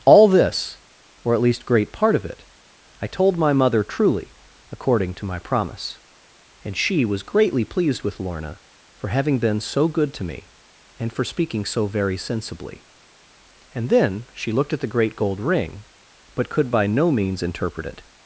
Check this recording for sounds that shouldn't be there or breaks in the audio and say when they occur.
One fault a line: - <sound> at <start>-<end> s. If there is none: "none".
none